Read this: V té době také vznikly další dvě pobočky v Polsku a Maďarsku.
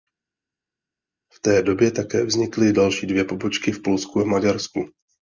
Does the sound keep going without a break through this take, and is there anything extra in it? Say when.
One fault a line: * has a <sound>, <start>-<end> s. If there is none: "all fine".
all fine